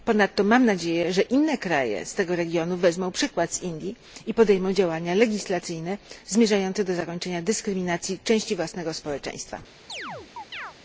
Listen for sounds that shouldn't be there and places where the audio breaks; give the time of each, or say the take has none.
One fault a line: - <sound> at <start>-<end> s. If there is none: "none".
- chirp at 9.9-10.7 s